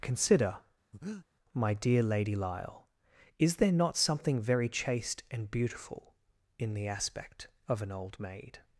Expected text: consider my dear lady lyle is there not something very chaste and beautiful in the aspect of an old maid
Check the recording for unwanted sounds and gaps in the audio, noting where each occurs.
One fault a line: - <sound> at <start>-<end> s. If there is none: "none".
- breath at 0.9-1.3 s